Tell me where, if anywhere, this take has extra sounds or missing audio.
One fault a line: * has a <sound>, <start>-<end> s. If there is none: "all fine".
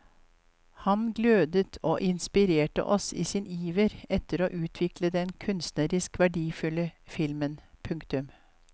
all fine